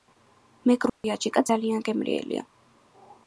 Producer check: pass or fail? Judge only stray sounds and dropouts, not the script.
fail